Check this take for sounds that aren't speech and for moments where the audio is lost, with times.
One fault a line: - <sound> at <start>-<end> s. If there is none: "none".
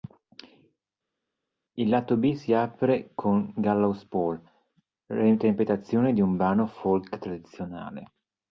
none